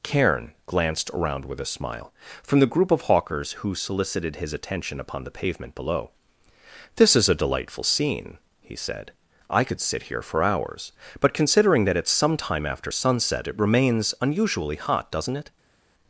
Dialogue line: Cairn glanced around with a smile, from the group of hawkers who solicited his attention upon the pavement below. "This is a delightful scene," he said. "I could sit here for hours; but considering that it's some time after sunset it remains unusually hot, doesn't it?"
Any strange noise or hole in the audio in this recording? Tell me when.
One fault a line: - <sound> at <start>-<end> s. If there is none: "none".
none